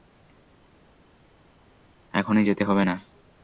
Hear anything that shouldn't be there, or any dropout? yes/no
no